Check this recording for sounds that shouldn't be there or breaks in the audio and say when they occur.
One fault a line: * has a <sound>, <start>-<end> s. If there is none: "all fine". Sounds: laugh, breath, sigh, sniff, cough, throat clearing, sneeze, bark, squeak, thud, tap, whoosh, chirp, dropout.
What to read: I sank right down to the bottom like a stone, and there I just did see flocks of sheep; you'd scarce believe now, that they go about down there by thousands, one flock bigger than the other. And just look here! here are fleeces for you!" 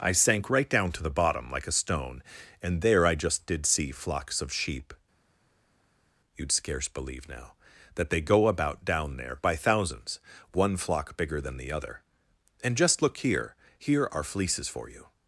all fine